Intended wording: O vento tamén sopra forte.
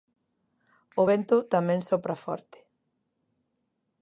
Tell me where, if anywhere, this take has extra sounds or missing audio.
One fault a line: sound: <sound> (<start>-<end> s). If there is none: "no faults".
no faults